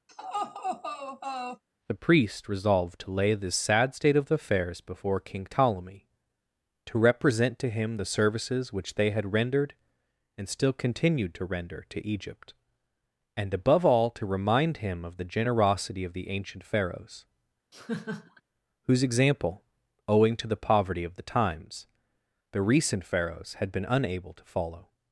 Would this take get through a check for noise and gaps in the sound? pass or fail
fail